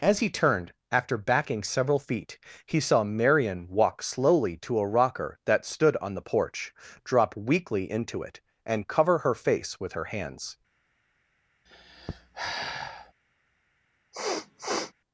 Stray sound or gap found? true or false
true